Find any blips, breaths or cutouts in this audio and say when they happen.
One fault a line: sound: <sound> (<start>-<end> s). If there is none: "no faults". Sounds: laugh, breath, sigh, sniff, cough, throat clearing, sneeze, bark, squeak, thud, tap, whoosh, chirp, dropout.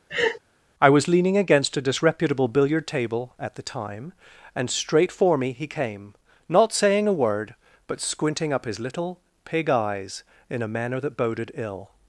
sound: laugh (0.1-0.4 s)